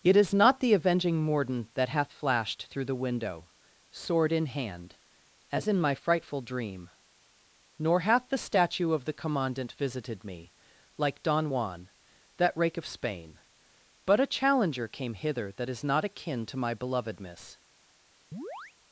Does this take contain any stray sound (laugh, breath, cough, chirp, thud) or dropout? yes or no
yes